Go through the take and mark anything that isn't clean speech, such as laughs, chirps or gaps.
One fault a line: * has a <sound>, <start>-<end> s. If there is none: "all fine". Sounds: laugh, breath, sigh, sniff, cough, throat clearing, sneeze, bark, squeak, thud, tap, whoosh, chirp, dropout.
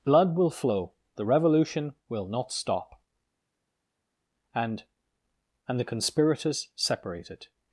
all fine